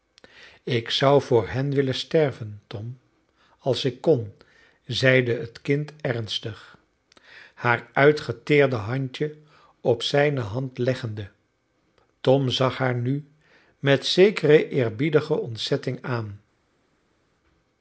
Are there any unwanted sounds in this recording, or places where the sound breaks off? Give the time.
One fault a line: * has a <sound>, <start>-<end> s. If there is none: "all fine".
all fine